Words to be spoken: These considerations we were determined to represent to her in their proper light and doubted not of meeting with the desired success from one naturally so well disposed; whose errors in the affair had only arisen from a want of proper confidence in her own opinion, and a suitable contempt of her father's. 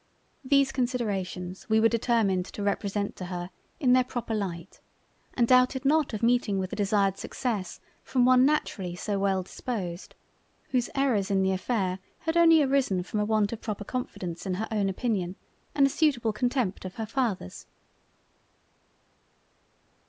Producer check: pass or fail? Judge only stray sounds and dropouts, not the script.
pass